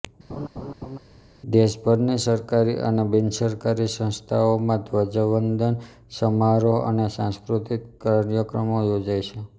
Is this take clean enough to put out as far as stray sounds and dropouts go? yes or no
no